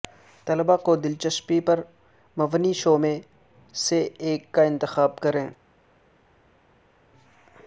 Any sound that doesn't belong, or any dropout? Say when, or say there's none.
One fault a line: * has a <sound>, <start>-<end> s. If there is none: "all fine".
all fine